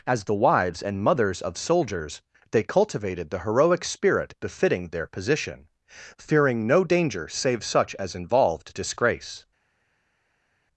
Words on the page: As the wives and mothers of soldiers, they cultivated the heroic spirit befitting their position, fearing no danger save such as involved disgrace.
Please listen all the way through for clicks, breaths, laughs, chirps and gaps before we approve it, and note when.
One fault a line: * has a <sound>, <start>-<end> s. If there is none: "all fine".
all fine